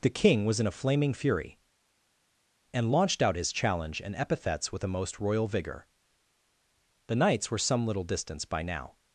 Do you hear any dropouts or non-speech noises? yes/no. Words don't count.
no